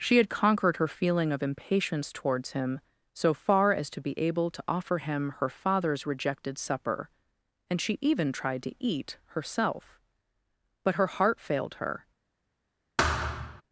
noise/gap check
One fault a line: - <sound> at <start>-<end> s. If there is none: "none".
- thud at 13.0-13.6 s